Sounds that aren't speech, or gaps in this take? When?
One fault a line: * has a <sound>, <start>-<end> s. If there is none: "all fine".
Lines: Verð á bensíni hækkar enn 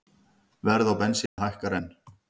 * has a dropout, 1.3-1.4 s